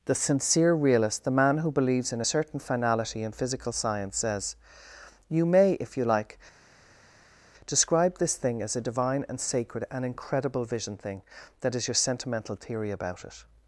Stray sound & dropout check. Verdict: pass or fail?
pass